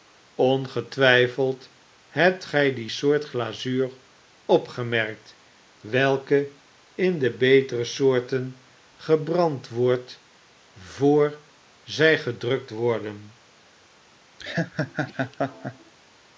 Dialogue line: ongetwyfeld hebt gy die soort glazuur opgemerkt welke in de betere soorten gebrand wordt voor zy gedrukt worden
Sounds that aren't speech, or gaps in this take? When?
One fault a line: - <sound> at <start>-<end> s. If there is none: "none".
- laugh at 14.4-15.9 s